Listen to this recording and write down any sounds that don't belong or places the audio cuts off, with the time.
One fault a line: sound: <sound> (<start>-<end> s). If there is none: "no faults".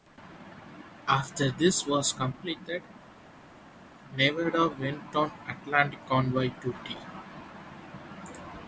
no faults